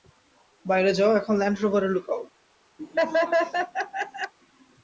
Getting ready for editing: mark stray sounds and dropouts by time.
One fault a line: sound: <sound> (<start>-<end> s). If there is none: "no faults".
sound: laugh (2.8-4.3 s)